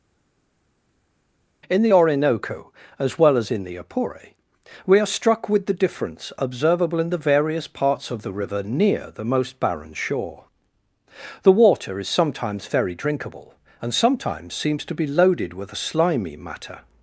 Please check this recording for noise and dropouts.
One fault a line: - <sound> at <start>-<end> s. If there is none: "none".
none